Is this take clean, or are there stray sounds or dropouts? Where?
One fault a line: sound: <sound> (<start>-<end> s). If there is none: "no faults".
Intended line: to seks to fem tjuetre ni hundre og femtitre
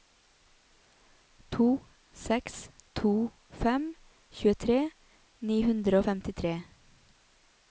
no faults